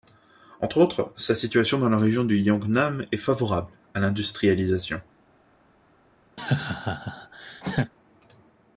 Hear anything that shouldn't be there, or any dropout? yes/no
yes